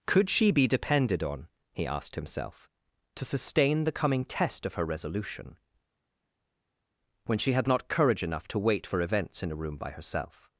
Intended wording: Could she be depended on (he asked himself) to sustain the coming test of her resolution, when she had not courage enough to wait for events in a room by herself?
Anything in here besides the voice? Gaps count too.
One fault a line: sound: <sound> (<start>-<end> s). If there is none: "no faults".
no faults